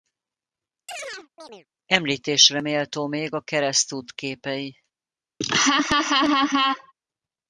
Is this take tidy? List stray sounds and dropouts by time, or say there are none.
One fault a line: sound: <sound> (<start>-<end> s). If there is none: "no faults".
sound: chirp (0.9-1.7 s)
sound: laugh (5.4-6.9 s)